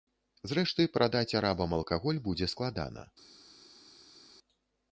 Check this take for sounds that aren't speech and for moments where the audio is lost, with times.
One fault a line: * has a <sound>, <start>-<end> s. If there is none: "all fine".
all fine